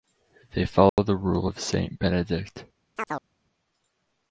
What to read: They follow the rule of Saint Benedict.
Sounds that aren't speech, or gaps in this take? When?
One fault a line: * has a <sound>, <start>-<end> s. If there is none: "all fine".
* has a dropout, 0.9-1.0 s
* has a chirp, 3.0-3.3 s